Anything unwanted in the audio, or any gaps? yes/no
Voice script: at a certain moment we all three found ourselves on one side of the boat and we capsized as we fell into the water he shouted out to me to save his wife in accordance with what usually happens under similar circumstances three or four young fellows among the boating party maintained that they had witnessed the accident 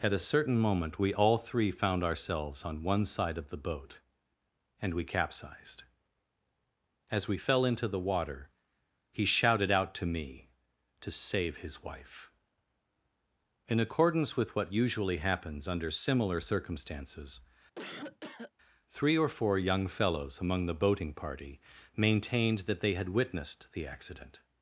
yes